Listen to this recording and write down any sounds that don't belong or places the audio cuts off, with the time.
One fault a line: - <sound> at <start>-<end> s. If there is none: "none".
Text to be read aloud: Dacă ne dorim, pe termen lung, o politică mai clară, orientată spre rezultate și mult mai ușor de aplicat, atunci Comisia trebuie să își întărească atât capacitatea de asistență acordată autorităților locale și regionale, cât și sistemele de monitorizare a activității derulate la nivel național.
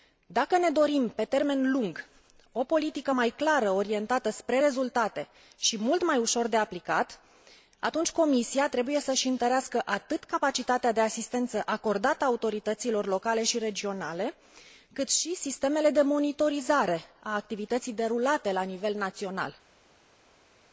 none